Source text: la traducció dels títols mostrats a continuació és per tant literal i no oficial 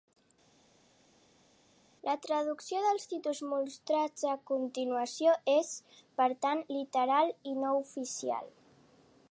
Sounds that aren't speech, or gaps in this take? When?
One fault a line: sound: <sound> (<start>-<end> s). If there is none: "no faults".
no faults